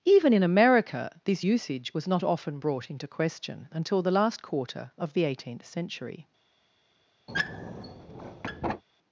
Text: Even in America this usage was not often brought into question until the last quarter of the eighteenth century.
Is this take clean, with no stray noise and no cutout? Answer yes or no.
no